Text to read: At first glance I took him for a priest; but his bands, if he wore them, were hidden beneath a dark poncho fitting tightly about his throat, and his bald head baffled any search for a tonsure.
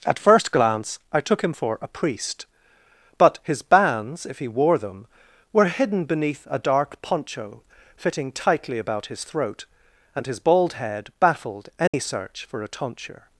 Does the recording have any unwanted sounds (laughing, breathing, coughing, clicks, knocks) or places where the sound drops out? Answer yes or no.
yes